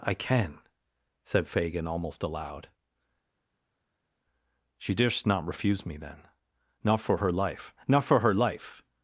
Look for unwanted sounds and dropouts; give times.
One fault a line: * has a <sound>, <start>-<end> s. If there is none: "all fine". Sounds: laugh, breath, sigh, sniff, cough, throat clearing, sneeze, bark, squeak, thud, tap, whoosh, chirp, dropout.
all fine